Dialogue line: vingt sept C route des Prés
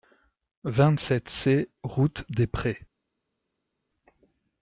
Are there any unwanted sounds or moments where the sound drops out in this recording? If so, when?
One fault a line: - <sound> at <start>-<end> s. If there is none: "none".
none